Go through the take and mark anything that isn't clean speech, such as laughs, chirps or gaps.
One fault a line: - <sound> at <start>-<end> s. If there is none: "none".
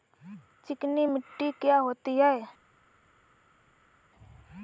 none